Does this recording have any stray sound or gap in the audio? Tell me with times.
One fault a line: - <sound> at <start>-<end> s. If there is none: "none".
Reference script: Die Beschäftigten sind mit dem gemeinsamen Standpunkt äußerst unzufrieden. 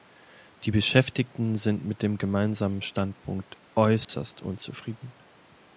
- dropout at 4.0-4.1 s